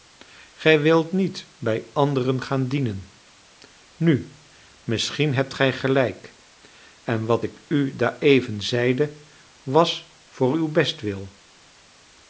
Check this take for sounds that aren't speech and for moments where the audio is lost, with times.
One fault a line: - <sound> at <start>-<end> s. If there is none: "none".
none